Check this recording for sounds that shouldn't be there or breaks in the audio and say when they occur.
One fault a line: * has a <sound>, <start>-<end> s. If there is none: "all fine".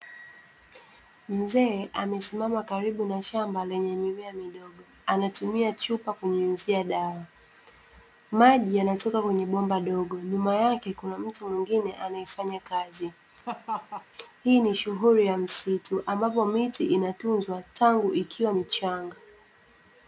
* has a laugh, 13.5-14.1 s